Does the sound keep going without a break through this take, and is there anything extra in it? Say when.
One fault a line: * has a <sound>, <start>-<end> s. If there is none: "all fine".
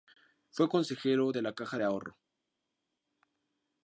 all fine